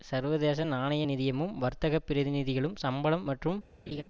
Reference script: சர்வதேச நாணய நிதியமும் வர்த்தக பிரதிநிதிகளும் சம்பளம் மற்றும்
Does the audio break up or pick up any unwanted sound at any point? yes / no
yes